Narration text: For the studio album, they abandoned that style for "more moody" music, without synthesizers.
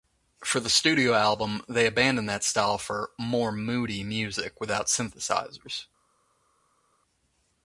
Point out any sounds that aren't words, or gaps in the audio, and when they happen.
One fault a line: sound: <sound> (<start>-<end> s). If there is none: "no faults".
no faults